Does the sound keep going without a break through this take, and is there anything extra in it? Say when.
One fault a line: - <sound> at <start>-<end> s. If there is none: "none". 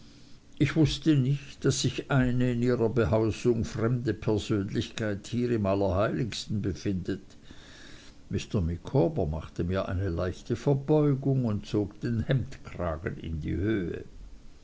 none